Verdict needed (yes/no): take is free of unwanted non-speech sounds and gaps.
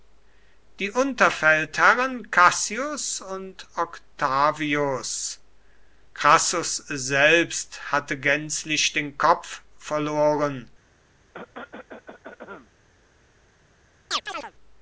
no